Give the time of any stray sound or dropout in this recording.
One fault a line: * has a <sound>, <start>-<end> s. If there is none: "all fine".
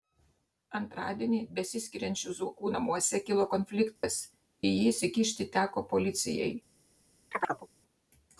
* has a dropout, 4.0-4.0 s
* has a chirp, 7.3-7.7 s